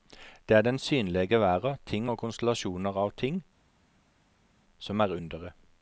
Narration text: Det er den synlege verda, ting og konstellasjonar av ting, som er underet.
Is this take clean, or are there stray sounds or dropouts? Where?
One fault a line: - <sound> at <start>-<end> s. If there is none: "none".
none